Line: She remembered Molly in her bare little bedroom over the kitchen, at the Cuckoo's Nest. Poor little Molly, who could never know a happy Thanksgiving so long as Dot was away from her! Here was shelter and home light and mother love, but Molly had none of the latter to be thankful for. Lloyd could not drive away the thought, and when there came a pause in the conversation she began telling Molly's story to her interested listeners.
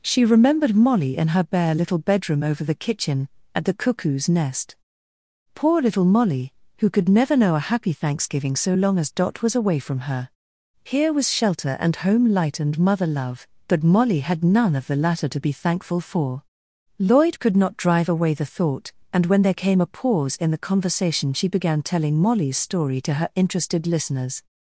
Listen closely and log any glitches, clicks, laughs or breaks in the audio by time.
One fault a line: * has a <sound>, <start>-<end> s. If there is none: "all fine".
all fine